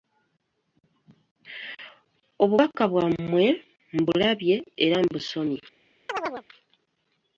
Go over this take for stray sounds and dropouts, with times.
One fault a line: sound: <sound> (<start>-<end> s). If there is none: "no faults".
sound: chirp (6.1-6.4 s)